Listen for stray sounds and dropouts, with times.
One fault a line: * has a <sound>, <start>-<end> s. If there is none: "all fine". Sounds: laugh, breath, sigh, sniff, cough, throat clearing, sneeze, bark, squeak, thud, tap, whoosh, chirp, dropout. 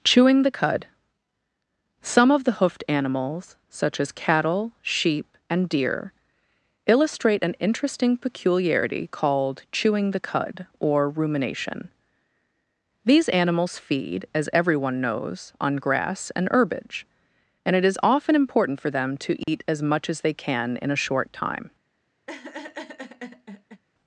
* has a dropout, 19.4-19.5 s
* has a laugh, 22.3-23.8 s